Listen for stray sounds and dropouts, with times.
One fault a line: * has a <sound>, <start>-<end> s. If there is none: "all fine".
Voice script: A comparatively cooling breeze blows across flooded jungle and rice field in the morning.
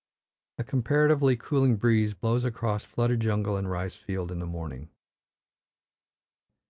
all fine